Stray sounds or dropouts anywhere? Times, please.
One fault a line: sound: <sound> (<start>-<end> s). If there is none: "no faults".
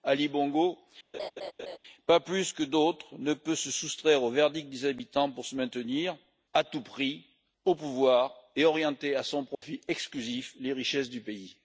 sound: laugh (1.1-1.8 s)
sound: dropout (9.5-9.6 s)